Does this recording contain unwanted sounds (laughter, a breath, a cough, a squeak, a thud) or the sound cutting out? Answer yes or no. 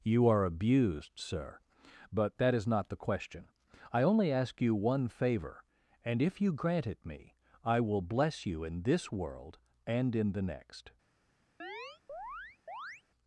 yes